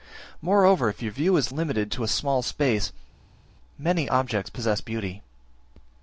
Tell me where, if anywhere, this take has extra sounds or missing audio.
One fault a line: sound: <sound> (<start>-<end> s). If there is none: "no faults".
no faults